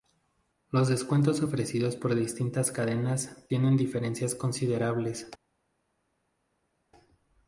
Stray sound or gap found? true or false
false